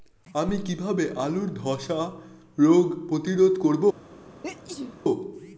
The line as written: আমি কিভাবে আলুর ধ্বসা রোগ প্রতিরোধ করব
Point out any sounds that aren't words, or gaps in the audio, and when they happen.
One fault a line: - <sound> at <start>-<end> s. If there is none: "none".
- sneeze at 4.4-5.0 s